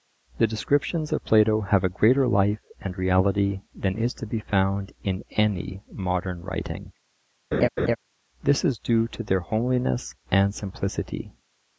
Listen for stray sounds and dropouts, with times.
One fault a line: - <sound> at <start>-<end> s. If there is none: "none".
- laugh at 7.5-8.0 s